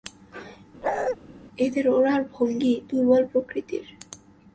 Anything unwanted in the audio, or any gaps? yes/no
yes